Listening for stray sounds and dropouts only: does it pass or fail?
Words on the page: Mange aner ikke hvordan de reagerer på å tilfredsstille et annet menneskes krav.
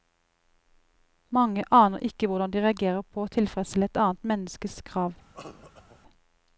fail